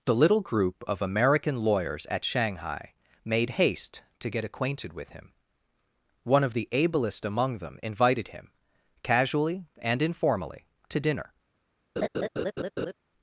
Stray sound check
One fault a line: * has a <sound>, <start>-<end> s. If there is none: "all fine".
* has a laugh, 12.0-12.9 s